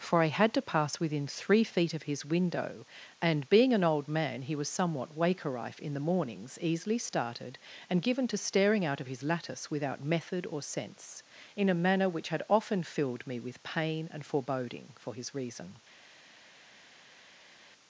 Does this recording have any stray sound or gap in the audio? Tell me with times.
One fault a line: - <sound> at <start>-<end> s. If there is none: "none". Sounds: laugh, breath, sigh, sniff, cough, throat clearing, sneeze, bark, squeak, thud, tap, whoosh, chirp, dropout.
none